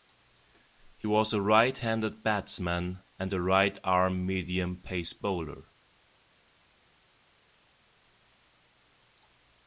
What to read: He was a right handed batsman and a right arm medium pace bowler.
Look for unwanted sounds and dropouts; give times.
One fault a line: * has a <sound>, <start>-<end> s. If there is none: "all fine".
all fine